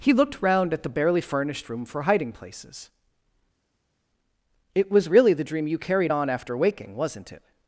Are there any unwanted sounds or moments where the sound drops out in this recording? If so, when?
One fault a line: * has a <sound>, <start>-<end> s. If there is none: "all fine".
all fine